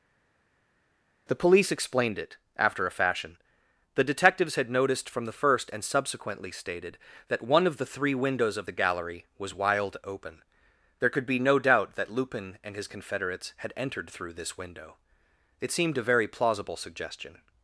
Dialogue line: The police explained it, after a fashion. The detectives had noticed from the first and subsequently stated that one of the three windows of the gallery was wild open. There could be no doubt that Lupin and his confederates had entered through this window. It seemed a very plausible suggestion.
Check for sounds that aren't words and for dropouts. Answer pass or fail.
pass